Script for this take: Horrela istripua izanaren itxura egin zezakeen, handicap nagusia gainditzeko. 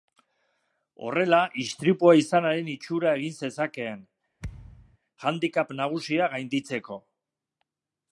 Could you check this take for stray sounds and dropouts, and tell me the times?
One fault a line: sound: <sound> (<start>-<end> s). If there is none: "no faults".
sound: thud (4.4-5.0 s)